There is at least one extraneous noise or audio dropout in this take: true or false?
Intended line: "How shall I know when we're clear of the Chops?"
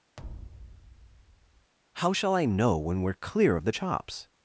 true